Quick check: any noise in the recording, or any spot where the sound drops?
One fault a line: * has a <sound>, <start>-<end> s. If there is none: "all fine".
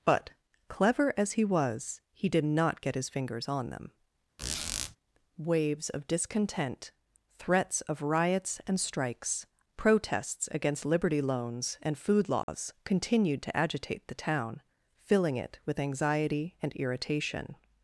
* has a squeak, 4.4-5.0 s
* has a dropout, 12.4-12.5 s